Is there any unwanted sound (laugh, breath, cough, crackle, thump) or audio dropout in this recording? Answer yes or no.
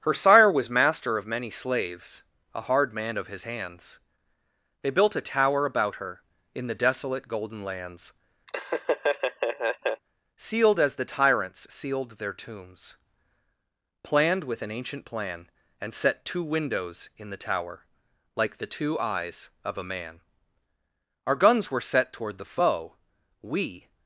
yes